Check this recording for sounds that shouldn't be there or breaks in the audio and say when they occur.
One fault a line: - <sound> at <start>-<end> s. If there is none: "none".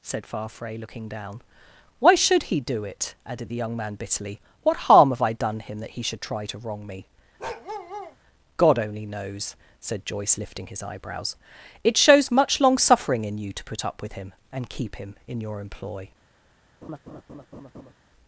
- bark at 7.4-8.2 s
- laugh at 16.8-17.9 s